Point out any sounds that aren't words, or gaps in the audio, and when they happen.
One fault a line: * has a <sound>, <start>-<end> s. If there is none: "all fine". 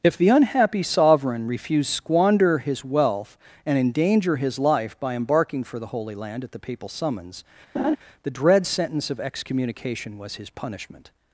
* has a laugh, 7.7-8.0 s